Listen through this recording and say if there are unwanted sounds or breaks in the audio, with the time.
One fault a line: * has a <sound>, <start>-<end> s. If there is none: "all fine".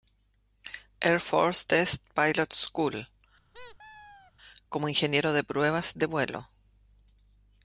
* has a squeak, 3.5-4.3 s